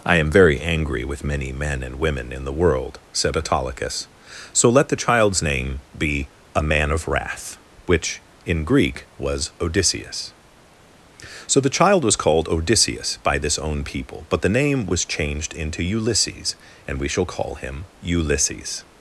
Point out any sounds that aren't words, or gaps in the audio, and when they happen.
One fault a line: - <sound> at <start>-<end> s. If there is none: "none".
none